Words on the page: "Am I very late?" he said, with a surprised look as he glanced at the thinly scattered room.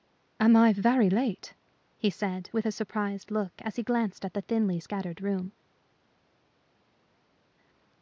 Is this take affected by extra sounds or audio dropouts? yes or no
no